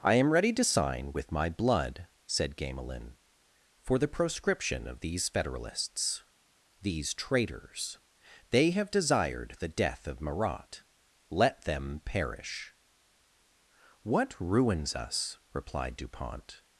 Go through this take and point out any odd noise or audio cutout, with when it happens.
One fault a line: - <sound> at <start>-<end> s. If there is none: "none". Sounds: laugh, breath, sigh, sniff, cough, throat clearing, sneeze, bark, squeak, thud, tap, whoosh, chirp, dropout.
none